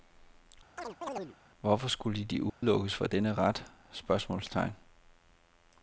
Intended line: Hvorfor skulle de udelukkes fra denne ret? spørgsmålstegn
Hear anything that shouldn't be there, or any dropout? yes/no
yes